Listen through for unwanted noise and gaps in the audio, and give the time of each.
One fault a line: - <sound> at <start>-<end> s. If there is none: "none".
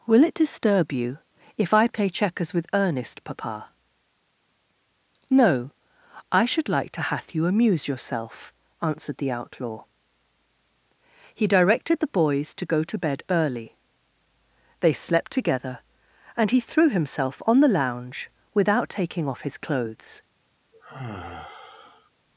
- sigh at 20.7-22.1 s